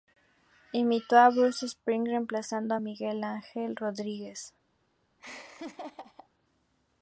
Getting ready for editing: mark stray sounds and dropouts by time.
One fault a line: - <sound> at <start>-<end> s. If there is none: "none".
- laugh at 5.2-6.3 s